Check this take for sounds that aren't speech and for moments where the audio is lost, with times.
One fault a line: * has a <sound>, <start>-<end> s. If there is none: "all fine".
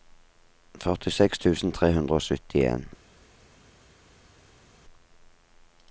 all fine